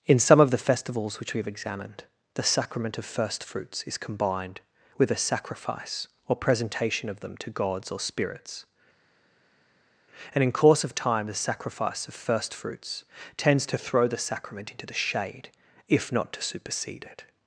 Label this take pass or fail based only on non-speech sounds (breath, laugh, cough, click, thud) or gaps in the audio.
pass